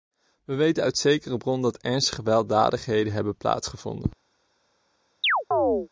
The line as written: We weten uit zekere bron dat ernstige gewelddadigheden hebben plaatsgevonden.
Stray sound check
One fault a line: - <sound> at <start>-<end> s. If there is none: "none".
- chirp at 5.2-5.9 s